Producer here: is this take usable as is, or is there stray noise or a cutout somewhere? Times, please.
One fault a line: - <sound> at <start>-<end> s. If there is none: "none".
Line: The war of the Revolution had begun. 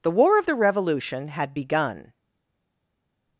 none